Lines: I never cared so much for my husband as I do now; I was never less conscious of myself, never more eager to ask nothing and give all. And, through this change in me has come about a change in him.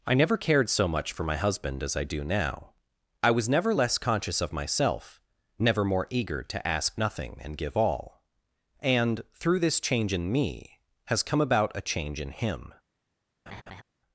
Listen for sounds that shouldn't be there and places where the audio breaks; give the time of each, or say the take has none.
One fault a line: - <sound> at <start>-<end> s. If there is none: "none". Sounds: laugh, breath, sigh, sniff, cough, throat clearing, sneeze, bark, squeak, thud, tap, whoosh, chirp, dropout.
- laugh at 13.5-13.8 s